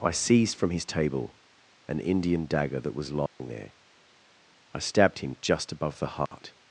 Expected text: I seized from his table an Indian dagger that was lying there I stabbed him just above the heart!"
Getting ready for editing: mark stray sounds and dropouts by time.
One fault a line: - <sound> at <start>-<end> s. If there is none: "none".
- dropout at 3.3-3.4 s
- dropout at 6.3-6.3 s